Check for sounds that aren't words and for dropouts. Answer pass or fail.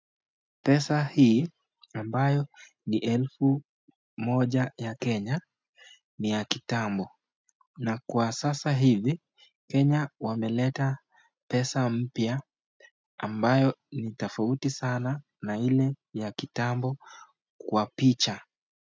pass